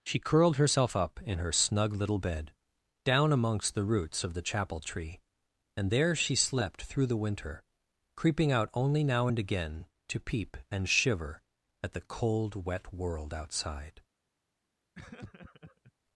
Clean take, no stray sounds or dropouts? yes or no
no